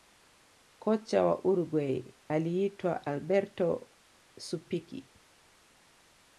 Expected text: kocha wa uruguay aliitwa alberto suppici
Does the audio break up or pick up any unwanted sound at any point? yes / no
no